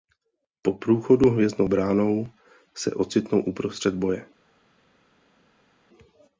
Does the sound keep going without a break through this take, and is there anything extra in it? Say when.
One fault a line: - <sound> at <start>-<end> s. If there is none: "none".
none